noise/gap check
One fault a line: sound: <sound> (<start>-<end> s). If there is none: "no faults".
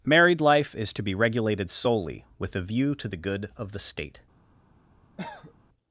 sound: cough (5.2-5.5 s)